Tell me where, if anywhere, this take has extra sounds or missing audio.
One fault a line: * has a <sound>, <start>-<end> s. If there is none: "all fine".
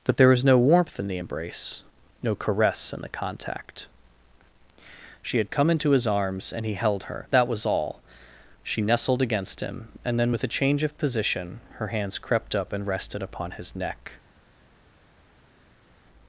all fine